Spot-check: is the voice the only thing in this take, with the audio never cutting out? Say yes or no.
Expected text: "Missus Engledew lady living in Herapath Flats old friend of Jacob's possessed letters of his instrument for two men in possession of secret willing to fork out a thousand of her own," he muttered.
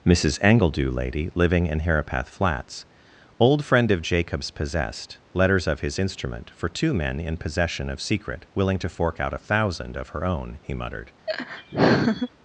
no